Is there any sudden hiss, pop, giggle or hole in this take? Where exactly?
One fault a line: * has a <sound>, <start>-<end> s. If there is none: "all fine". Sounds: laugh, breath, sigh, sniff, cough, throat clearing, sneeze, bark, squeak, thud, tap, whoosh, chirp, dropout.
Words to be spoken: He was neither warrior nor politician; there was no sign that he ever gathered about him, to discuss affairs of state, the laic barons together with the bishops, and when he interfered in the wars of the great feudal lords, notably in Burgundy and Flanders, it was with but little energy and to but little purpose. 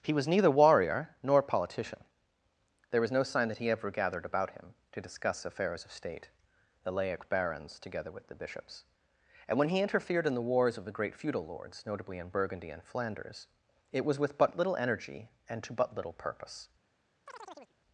* has a chirp, 17.3-17.7 s